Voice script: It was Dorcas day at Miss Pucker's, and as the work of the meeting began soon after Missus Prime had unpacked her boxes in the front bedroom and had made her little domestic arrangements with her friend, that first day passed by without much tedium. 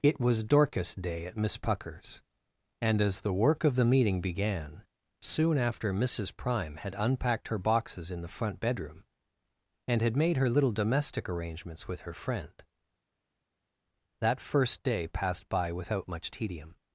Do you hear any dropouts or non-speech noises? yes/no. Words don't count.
no